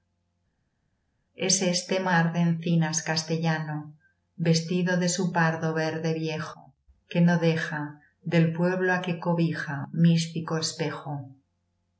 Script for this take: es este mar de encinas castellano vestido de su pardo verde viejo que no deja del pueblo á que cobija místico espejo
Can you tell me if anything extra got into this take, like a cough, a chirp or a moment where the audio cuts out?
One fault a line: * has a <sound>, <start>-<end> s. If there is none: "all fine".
all fine